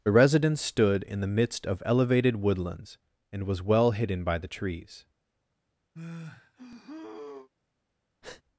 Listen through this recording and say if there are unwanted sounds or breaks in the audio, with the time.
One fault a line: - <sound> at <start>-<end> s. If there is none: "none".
- sigh at 5.9-7.5 s
- breath at 8.2-8.4 s